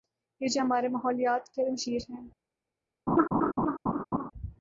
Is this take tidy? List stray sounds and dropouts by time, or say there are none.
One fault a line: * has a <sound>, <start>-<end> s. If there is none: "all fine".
* has a laugh, 3.1-4.3 s